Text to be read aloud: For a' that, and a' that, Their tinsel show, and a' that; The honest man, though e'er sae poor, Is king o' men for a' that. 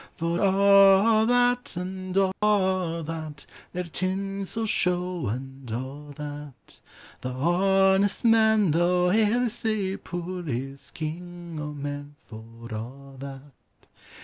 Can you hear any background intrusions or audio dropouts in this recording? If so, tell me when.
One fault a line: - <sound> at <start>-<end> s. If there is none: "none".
- dropout at 2.3-2.4 s